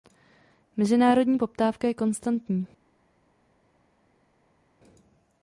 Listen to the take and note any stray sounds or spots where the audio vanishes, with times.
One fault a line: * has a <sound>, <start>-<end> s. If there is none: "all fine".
all fine